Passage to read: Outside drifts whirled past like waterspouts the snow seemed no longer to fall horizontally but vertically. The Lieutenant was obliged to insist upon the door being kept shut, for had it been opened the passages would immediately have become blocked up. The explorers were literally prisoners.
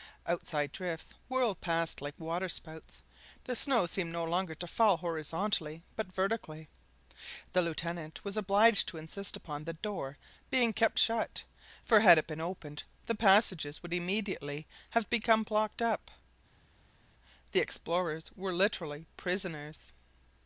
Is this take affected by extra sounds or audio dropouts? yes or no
no